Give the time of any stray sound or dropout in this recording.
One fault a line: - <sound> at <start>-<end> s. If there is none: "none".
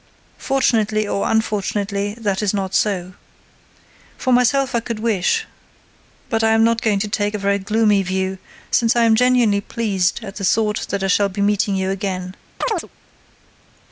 - chirp at 12.6-12.9 s